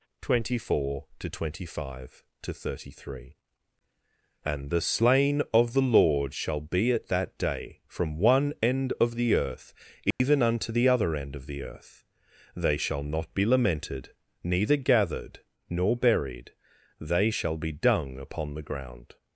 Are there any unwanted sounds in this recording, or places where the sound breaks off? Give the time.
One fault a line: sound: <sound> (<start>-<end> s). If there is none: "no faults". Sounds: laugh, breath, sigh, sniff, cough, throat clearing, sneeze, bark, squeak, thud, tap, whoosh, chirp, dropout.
sound: dropout (10.1-10.2 s)